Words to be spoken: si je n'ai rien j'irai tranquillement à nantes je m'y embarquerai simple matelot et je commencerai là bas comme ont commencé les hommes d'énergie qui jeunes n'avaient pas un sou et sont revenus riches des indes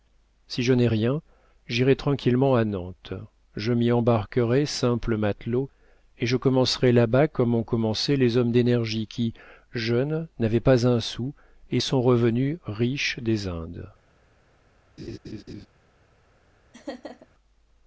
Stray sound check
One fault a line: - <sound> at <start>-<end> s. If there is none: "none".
- laugh at 15.0-15.7 s
- laugh at 16.7-17.3 s